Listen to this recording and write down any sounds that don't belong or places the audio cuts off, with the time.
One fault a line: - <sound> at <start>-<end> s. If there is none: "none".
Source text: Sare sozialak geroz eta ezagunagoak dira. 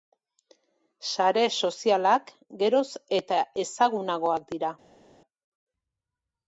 none